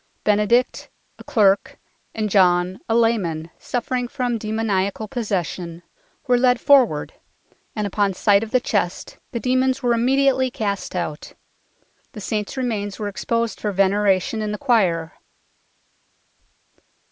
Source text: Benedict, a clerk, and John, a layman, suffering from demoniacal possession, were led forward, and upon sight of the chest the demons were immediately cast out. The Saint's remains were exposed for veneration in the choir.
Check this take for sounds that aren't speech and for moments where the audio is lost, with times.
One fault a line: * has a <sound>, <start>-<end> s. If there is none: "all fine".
all fine